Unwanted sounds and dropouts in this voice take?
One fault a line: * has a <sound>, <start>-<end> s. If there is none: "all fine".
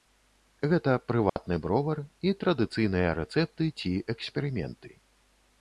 * has a dropout, 1.3-1.4 s